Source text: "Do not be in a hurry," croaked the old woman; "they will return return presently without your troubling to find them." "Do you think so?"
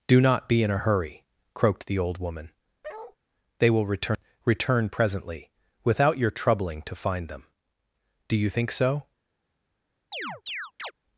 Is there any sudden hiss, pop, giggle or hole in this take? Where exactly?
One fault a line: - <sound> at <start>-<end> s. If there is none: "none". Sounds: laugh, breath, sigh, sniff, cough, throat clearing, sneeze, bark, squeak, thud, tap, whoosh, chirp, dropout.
- bark at 2.8-3.2 s
- chirp at 10.1-10.9 s